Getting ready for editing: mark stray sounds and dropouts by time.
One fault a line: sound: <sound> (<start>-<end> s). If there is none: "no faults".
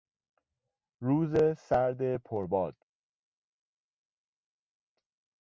no faults